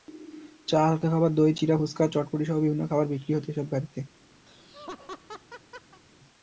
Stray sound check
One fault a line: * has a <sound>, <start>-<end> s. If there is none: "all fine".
* has a laugh, 4.5-6.0 s